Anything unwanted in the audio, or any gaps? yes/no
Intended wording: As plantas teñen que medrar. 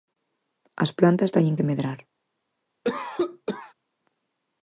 yes